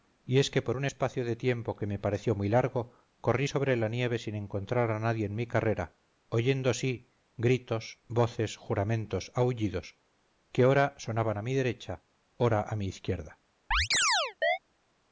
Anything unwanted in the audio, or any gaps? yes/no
yes